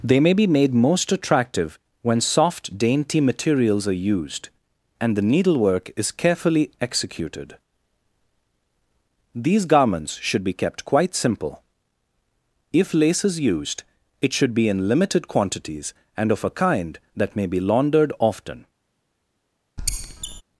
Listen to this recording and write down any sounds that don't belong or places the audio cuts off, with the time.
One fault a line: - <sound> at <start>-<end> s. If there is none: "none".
- squeak at 19.8-20.4 s